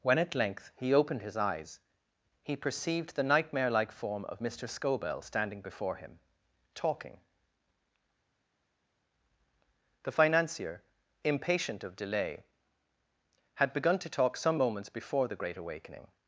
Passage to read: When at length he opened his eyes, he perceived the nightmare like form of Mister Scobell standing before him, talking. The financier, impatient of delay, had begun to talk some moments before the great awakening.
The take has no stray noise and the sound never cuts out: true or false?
true